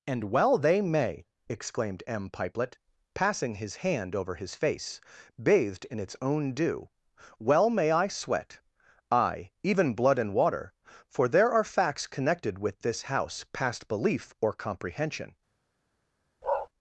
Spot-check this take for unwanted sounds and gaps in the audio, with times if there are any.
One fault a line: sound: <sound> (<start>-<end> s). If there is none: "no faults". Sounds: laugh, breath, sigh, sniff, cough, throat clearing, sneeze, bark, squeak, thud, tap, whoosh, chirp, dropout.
sound: bark (16.4-16.7 s)